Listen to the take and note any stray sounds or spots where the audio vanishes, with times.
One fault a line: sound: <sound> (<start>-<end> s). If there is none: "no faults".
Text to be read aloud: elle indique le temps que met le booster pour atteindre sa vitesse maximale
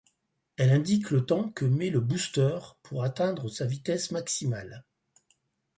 no faults